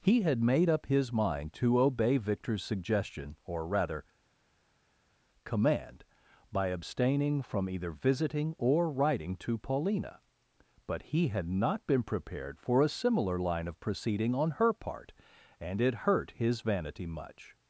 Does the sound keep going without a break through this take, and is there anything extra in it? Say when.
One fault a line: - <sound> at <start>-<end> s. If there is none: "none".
none